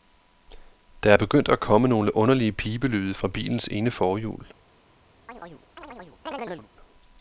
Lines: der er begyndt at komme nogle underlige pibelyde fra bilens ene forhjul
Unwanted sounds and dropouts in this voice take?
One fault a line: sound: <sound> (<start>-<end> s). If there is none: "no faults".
sound: chirp (5.3-6.7 s)